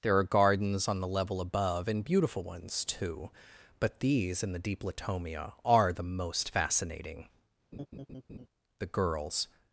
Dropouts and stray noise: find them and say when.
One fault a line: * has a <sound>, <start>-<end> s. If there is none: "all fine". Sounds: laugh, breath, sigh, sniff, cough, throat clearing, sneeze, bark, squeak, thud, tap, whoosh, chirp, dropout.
* has a laugh, 7.7-8.5 s